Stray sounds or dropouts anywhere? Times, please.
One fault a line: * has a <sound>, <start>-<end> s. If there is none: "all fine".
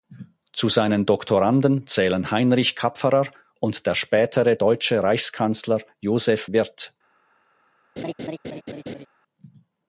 * has a laugh, 8.0-9.1 s